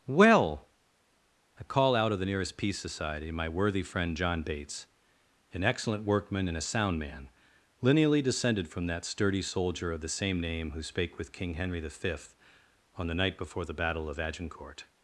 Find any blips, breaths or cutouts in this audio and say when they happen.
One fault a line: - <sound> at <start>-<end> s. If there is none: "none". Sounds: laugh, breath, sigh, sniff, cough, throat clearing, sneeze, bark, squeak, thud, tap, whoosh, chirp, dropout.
none